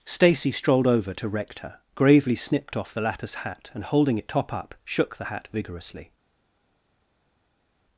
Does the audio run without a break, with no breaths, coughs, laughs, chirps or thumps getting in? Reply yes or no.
yes